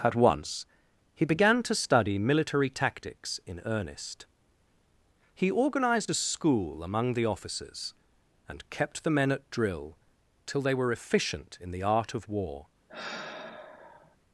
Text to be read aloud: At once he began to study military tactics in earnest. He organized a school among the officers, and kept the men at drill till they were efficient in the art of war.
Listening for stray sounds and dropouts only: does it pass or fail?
fail